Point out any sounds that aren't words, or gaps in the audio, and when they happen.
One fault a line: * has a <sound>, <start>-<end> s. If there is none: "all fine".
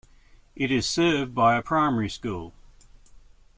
all fine